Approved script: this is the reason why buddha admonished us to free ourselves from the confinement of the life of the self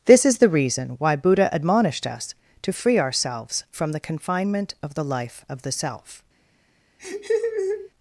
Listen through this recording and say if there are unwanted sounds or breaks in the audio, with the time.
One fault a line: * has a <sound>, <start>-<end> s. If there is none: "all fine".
* has a laugh, 7.0-7.9 s